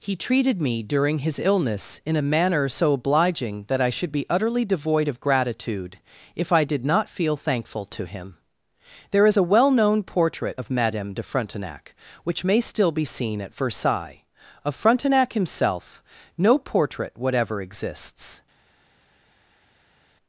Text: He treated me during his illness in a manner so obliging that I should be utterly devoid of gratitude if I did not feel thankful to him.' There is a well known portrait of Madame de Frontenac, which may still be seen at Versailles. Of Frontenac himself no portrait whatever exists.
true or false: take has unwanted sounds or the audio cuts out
false